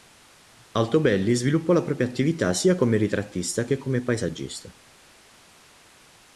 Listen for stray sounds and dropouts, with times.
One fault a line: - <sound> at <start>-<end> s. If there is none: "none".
none